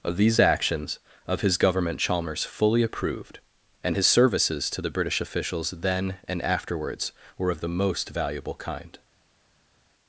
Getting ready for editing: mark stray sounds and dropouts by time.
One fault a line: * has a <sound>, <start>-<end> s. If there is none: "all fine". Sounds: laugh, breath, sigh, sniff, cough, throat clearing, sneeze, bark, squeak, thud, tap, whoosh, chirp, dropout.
all fine